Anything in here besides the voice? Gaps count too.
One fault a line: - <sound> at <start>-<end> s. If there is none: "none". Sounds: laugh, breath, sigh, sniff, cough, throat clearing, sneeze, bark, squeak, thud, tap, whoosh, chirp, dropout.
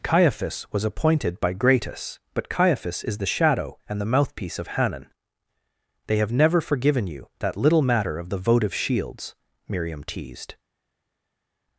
none